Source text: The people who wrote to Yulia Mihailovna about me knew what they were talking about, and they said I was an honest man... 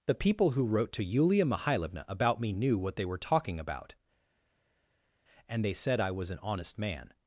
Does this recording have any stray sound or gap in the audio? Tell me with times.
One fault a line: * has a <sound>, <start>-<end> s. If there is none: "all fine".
all fine